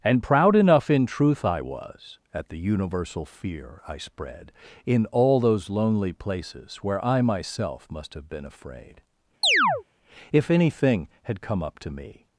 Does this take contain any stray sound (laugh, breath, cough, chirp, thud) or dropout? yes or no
yes